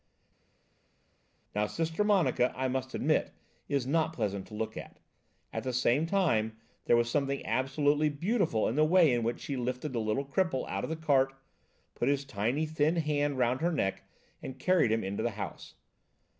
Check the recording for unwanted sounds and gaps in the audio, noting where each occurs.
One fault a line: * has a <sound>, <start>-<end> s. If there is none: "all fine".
all fine